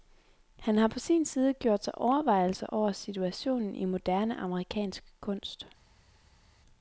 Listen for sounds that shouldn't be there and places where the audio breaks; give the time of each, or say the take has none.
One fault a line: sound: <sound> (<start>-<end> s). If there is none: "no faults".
no faults